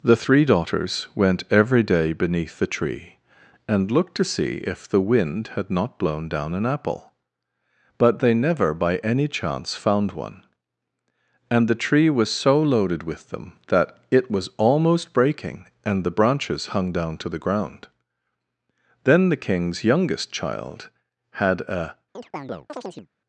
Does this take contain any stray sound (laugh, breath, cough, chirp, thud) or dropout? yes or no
yes